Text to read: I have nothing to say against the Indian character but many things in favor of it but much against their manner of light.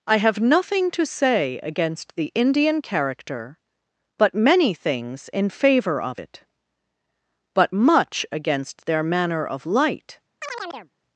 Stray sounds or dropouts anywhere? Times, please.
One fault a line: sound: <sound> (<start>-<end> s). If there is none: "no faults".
sound: chirp (10.4-10.9 s)